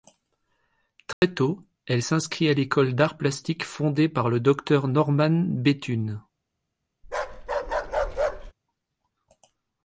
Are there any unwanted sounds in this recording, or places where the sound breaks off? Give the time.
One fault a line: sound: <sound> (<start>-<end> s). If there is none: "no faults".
sound: dropout (1.1-1.2 s)
sound: bark (7.0-8.5 s)